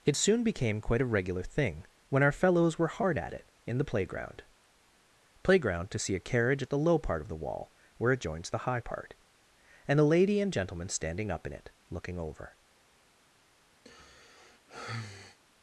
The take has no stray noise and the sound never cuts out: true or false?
false